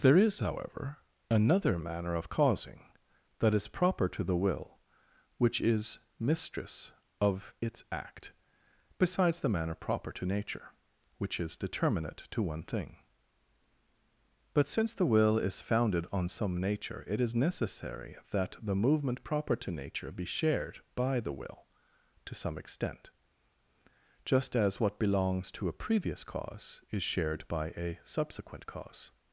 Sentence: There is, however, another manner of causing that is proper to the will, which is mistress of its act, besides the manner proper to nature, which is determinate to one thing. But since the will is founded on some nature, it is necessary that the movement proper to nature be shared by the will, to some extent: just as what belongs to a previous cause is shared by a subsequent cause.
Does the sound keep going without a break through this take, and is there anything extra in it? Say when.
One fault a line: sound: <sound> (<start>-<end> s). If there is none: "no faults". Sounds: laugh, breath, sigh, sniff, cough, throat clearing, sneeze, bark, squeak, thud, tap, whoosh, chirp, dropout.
no faults